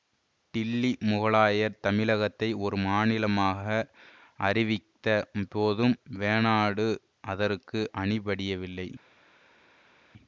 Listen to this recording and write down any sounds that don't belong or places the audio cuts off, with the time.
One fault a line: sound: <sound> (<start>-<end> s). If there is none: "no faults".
no faults